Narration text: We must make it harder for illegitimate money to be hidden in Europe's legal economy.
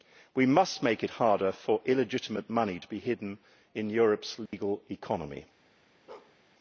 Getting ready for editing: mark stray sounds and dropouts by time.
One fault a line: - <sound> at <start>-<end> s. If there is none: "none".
- dropout at 4.5-4.5 s
- bark at 6.1-6.4 s